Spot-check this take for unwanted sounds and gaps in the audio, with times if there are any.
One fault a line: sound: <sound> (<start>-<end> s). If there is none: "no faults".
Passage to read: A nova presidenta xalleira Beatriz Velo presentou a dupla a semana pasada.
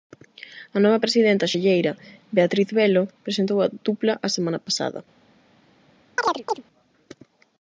sound: chirp (6.2-6.6 s)